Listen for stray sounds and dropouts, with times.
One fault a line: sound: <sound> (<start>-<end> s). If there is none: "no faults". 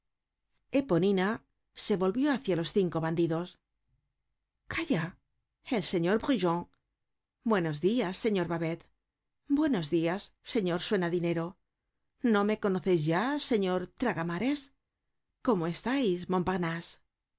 no faults